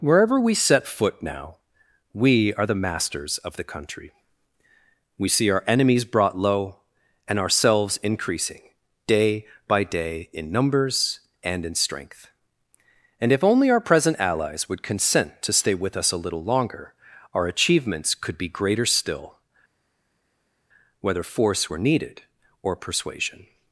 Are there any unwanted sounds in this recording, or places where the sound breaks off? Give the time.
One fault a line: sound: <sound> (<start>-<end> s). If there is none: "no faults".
no faults